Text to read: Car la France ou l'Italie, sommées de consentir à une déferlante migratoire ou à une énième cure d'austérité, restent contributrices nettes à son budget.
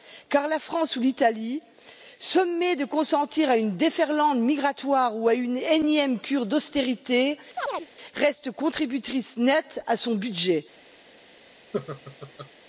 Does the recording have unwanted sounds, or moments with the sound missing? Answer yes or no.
yes